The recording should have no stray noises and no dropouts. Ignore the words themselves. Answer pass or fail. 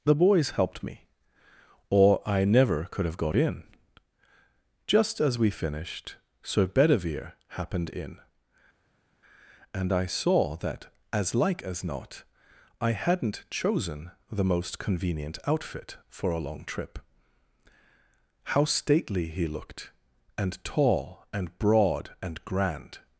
pass